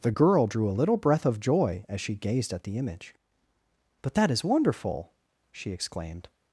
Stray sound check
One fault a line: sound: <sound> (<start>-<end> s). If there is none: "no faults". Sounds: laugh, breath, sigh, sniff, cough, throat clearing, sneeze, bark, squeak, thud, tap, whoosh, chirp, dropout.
no faults